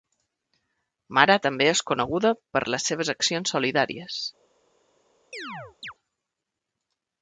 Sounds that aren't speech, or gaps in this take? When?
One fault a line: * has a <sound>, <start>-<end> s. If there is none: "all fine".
* has a chirp, 5.3-5.9 s